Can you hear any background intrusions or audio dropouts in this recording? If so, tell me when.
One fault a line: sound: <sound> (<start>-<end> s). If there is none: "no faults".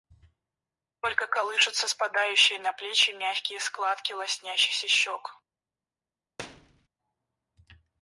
sound: thud (6.4-6.9 s)